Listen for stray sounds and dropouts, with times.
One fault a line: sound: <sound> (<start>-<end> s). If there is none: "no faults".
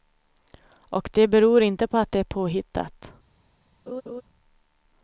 sound: laugh (3.9-4.2 s)